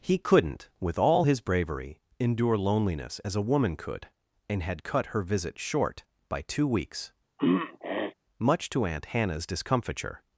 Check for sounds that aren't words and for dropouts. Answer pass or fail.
fail